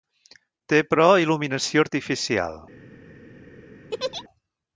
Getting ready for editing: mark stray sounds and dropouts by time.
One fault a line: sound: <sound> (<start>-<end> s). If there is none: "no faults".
sound: laugh (3.9-4.2 s)